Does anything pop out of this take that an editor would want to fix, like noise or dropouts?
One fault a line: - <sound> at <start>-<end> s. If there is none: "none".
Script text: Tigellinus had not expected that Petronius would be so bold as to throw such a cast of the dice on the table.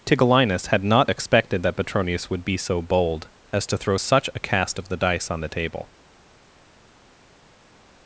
none